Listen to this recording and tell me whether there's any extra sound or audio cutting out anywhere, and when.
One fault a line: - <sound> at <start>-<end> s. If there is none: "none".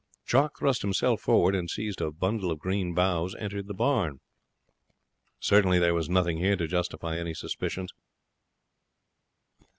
none